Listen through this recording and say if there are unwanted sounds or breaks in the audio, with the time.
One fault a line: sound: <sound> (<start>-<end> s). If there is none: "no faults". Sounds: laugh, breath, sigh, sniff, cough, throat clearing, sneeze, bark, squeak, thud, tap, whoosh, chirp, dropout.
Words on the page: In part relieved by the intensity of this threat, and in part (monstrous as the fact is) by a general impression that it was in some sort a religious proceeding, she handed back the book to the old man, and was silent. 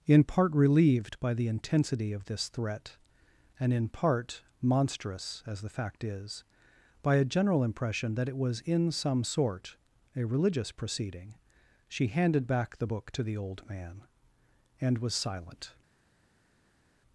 no faults